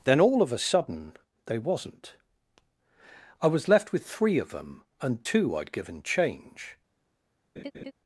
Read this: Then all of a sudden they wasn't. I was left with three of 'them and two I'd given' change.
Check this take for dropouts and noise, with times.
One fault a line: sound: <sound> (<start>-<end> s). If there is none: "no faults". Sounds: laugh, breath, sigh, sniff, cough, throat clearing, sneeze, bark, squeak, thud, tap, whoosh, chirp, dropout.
sound: laugh (7.6-7.9 s)